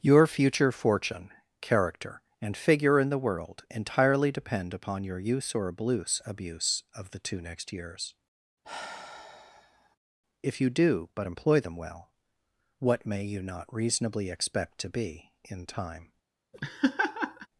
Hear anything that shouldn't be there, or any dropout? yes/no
yes